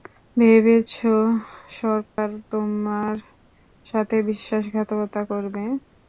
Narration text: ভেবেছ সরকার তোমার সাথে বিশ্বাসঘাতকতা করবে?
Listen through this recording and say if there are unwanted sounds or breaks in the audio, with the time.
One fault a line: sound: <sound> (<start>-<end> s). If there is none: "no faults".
sound: dropout (2.1-2.2 s)